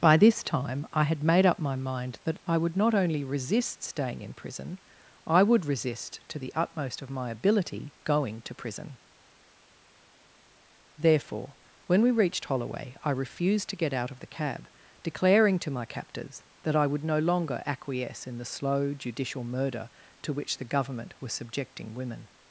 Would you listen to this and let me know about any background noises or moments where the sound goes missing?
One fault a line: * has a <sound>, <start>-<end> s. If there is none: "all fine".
all fine